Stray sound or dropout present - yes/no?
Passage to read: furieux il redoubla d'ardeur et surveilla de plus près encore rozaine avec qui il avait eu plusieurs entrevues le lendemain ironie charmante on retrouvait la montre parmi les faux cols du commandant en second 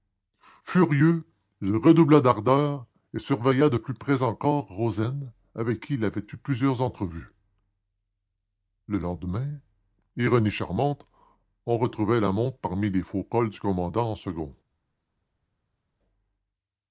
no